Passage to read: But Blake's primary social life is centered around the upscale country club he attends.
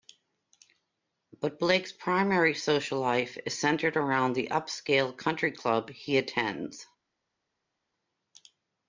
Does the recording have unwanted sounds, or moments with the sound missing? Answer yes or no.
no